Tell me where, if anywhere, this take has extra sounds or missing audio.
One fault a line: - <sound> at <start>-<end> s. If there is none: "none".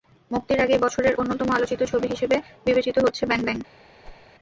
- whoosh at 4.0-4.3 s